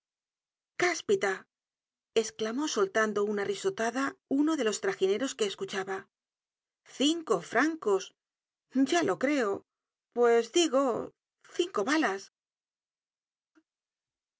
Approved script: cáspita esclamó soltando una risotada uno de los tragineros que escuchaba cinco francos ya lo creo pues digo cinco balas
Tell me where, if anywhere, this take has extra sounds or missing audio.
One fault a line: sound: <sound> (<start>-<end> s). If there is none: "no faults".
no faults